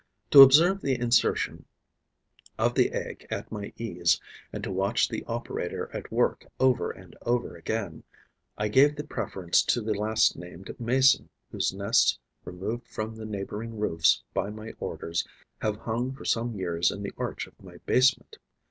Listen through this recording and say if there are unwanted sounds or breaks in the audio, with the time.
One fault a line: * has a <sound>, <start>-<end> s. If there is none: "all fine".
all fine